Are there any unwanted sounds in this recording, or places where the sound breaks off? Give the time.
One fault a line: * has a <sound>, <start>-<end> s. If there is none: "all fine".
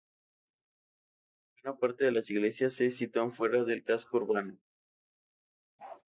* has a bark, 5.8-6.0 s